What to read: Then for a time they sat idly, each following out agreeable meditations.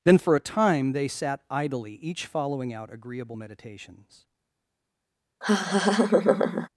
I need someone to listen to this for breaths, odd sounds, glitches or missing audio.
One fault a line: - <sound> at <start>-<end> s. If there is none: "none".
- laugh at 5.4-6.7 s